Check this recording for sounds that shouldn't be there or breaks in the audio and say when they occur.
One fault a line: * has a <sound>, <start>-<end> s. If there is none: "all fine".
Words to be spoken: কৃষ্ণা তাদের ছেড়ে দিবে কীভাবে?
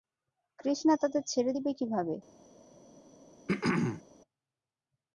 * has a throat clearing, 3.5-4.0 s